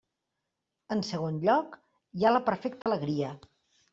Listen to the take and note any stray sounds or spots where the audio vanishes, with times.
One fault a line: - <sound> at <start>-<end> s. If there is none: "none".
- dropout at 2.8-2.9 s